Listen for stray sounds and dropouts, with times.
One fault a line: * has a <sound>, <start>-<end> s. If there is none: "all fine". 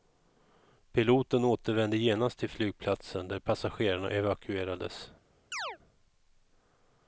* has a chirp, 5.5-5.8 s